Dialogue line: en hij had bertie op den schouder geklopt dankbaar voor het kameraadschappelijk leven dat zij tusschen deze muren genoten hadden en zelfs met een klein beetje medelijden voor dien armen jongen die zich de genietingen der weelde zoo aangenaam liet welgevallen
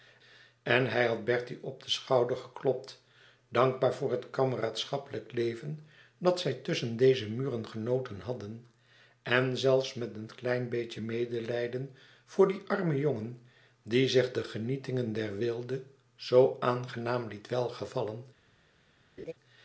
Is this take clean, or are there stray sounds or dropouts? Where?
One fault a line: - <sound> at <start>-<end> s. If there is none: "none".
- laugh at 19.2-19.3 s